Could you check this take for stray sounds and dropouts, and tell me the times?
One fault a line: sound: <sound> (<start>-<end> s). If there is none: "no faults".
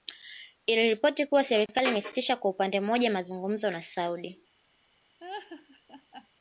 sound: laugh (5.2-6.3 s)